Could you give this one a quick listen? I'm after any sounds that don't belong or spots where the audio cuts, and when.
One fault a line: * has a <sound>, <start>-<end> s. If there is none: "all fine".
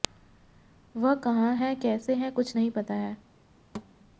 * has a thud, 3.7-3.9 s